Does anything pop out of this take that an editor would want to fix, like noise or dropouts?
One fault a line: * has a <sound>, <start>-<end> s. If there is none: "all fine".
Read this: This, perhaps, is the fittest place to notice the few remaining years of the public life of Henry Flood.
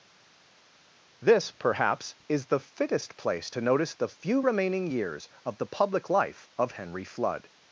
all fine